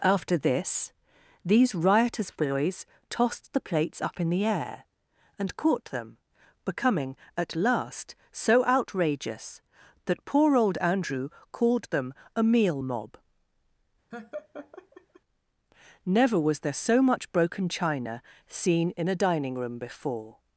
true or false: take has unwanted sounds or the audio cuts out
true